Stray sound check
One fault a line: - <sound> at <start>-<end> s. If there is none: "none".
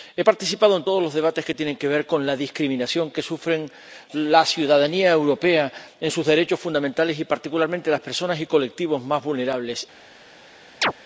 - chirp at 10.8-10.9 s